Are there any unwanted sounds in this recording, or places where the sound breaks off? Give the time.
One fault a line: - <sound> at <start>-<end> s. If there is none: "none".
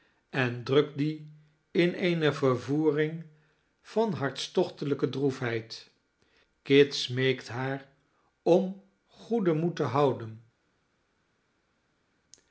none